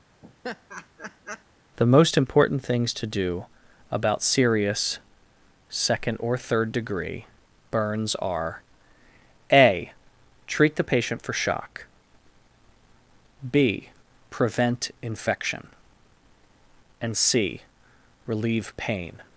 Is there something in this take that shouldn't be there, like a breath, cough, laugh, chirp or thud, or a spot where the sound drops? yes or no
yes